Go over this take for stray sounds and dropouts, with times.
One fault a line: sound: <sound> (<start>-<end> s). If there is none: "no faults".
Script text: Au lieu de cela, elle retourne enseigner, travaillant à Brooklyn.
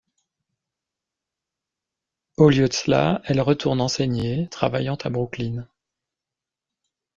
no faults